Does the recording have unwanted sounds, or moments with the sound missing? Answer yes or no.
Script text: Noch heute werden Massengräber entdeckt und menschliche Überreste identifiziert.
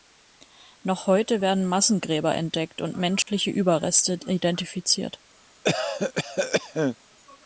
yes